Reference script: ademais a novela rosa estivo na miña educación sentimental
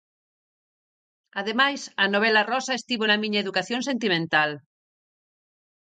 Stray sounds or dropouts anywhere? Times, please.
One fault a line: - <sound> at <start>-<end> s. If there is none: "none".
none